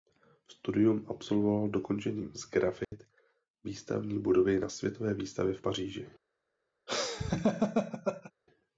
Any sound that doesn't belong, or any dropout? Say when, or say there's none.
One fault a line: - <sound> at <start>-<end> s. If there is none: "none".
- dropout at 2.8-2.9 s
- laugh at 6.9-8.3 s